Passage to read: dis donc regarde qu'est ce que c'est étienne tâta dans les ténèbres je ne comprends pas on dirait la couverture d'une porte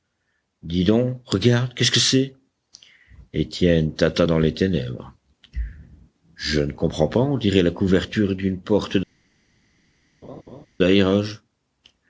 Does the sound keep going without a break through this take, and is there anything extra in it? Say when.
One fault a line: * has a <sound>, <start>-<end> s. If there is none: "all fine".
* has a laugh, 10.2-10.7 s